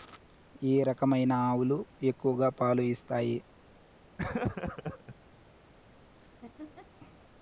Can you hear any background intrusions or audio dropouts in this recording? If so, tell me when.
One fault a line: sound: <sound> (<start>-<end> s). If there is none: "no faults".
sound: laugh (4.2-5.2 s)
sound: laugh (6.2-6.9 s)